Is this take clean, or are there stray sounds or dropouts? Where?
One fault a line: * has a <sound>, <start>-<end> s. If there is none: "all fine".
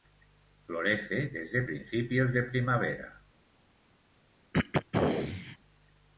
* has a throat clearing, 4.5-5.6 s